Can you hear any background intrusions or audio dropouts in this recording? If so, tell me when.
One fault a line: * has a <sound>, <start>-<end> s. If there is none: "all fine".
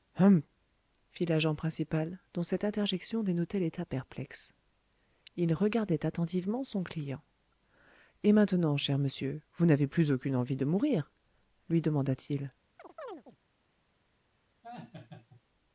* has a chirp, 12.8-13.4 s
* has a laugh, 14.6-15.4 s